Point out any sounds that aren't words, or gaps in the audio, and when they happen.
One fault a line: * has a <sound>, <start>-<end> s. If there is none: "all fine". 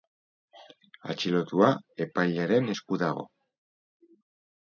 all fine